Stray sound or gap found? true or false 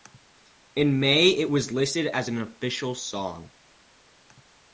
false